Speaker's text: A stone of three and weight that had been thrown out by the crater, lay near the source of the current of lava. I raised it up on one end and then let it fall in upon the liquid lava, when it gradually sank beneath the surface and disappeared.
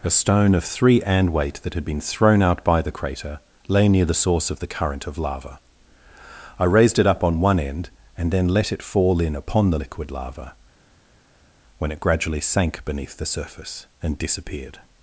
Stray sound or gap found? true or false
false